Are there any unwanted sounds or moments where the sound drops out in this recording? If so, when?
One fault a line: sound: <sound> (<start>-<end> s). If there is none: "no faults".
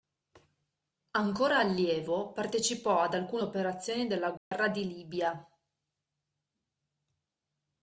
sound: dropout (4.4-4.5 s)